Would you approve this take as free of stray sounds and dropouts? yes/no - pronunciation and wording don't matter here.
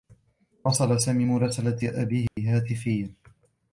no